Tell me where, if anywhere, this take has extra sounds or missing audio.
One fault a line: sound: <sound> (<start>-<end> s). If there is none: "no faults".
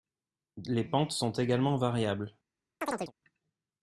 sound: chirp (2.8-3.1 s)